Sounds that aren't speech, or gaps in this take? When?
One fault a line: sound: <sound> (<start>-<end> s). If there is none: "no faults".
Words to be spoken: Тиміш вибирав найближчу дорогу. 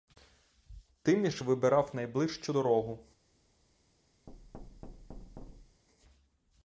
sound: thud (4.3-5.8 s)